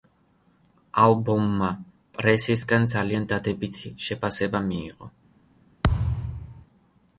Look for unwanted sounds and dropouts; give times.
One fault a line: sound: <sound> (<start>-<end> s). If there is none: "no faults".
sound: thud (5.8-6.7 s)